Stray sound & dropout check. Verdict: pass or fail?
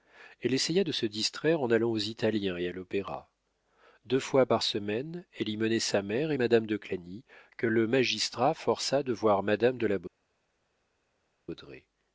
pass